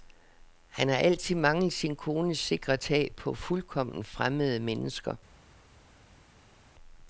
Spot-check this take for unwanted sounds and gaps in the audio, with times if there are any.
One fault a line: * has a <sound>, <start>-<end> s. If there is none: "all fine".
all fine